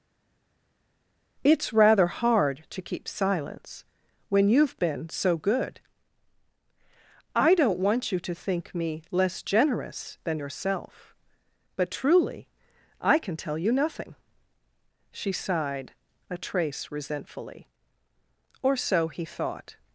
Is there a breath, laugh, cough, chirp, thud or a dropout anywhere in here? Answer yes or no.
no